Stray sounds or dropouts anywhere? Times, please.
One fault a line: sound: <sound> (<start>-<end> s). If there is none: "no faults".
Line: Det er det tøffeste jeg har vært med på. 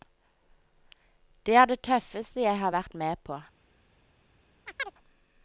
sound: chirp (4.7-4.9 s)